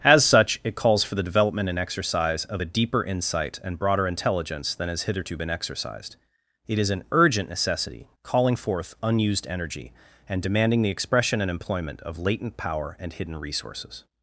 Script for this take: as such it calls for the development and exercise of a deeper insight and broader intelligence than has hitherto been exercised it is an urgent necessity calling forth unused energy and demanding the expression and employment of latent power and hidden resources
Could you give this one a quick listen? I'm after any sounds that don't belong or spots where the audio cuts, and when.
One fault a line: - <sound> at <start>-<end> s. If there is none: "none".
none